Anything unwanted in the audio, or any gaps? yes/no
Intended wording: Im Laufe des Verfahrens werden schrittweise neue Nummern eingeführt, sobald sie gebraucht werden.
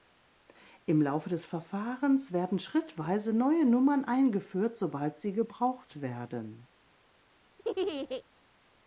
yes